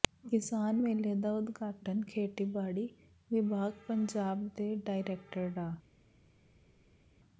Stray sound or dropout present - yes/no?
no